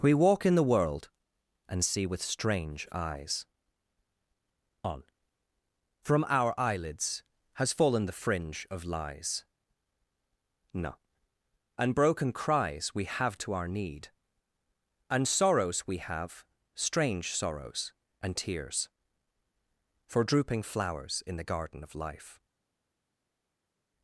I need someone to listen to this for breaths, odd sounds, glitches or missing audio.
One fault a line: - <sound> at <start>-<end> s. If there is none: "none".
none